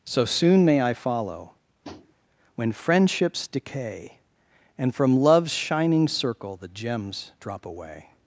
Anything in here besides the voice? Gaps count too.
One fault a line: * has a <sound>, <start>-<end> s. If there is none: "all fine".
* has a tap, 1.8-2.1 s